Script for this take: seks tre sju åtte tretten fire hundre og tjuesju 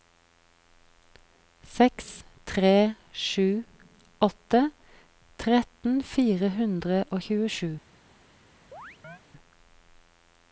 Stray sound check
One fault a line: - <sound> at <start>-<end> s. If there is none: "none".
- chirp at 8.7-9.2 s